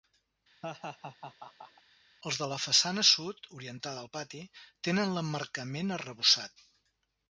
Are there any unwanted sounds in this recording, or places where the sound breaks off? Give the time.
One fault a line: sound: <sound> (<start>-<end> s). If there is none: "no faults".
sound: laugh (0.6-1.8 s)